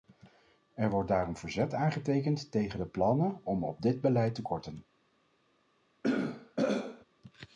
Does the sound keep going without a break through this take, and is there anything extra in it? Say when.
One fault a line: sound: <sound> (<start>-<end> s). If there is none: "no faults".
sound: throat clearing (6.0-7.0 s)